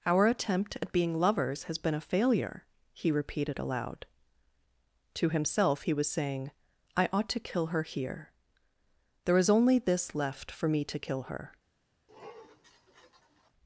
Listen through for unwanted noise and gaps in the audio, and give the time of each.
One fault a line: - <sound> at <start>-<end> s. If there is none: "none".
- sniff at 12.1-13.5 s